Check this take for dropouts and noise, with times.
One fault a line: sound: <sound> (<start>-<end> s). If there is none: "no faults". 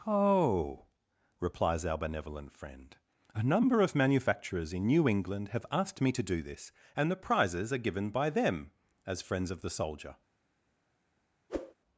sound: whoosh (11.5-11.7 s)